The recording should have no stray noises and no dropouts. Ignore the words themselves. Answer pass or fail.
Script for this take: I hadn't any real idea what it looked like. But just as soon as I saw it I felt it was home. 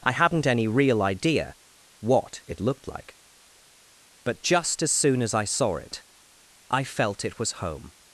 pass